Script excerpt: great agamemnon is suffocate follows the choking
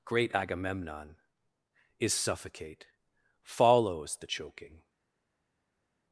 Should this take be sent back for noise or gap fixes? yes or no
no